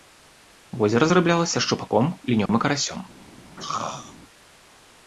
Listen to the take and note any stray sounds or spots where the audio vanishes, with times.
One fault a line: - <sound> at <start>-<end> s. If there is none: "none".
- dropout at 2.5-2.5 s
- throat clearing at 3.6-4.2 s